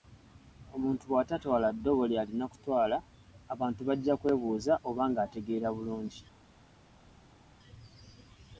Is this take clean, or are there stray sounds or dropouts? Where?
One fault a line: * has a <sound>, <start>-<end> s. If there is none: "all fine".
all fine